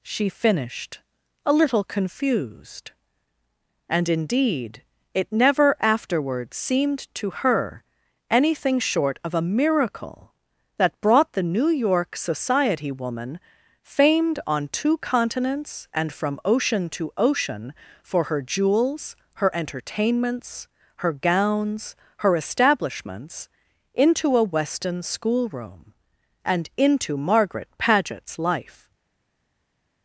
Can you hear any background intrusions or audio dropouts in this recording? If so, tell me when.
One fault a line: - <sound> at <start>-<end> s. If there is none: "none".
none